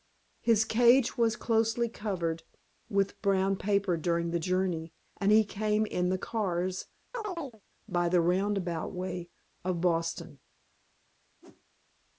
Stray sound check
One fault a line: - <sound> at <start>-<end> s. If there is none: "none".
- chirp at 7.1-7.6 s
- whoosh at 11.4-11.6 s